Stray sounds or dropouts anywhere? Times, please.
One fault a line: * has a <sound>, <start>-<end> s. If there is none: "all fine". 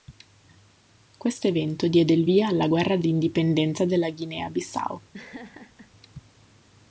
* has a laugh, 5.1-5.9 s